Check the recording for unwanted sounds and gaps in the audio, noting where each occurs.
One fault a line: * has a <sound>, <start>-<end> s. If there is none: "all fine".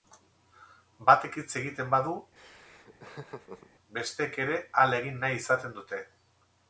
* has a laugh, 2.4-3.7 s